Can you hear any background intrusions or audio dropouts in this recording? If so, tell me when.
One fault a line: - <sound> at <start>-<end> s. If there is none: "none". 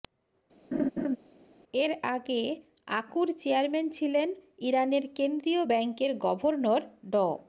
- laugh at 0.7-1.2 s